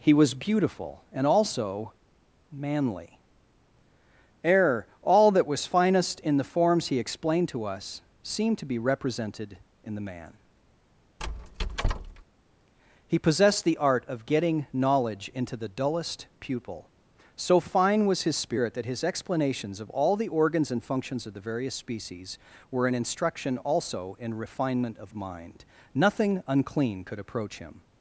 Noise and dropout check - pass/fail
fail